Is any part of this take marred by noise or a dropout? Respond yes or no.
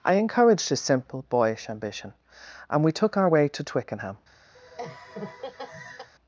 yes